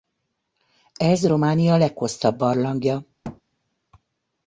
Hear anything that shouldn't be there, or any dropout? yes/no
yes